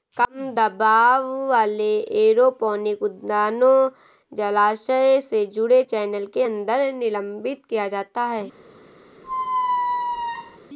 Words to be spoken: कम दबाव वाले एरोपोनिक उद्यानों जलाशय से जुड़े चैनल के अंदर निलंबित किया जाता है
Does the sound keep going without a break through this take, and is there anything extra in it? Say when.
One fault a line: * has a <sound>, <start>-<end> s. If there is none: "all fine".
* has a squeak, 9.2-10.6 s